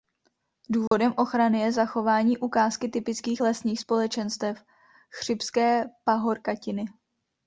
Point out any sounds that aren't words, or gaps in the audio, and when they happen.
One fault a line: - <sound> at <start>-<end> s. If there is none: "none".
- dropout at 0.9-0.9 s